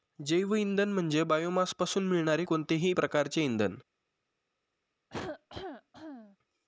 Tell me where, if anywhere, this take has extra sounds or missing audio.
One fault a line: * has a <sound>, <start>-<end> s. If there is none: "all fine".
* has a cough, 5.1-6.4 s